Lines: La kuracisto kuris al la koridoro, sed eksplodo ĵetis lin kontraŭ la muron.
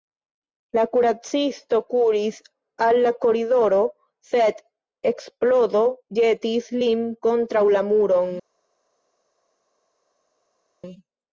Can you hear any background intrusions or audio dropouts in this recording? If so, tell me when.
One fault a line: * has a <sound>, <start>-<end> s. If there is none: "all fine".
all fine